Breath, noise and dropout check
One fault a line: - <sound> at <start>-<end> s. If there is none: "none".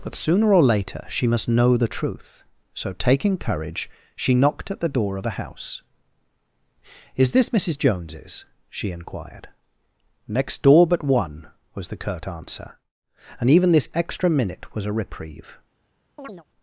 - chirp at 16.2-16.4 s